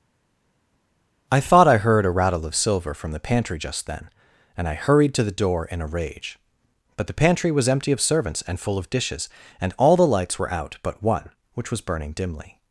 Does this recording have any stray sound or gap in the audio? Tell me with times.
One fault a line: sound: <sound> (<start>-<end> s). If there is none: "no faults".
no faults